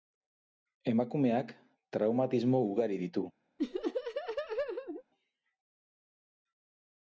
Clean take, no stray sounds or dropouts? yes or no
no